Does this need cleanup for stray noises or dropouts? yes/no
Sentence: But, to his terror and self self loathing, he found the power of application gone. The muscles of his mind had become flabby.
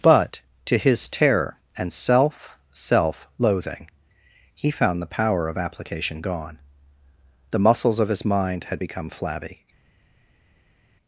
no